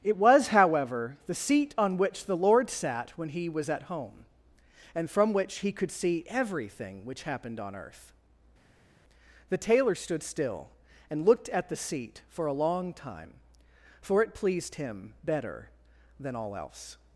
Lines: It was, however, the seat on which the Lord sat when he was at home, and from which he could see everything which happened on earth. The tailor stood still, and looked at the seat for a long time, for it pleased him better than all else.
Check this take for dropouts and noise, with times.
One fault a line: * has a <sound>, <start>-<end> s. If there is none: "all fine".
all fine